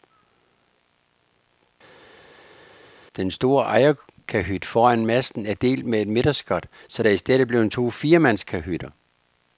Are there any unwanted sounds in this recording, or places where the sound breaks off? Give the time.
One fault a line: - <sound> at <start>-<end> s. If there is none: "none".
none